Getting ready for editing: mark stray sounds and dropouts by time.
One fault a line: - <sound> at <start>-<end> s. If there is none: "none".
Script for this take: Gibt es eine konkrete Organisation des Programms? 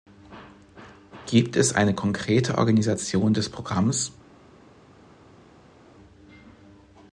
none